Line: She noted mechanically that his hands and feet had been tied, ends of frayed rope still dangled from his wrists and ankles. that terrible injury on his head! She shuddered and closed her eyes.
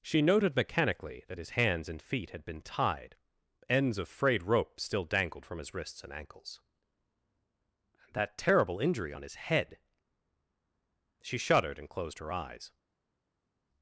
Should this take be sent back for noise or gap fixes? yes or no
no